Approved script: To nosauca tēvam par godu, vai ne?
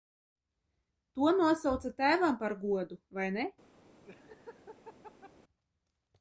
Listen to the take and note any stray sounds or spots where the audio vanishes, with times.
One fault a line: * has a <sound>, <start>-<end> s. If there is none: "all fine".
* has a laugh, 4.0-5.3 s